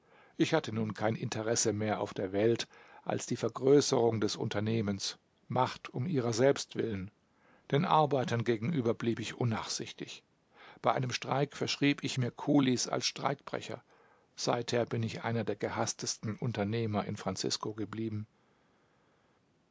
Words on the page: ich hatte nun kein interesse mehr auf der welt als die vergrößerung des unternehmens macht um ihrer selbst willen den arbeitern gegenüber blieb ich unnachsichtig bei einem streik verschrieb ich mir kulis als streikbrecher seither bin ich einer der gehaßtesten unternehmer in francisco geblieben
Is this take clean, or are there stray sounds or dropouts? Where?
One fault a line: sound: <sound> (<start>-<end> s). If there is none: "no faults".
no faults